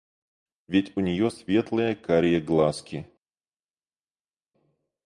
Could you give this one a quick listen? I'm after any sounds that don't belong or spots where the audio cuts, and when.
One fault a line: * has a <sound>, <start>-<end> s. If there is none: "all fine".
all fine